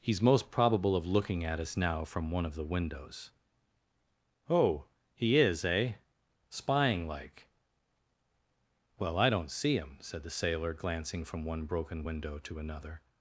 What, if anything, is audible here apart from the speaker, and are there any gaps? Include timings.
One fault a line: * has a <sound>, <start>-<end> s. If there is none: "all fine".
all fine